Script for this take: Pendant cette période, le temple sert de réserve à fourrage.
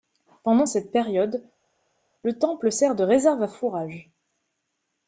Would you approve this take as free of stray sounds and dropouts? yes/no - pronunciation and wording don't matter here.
yes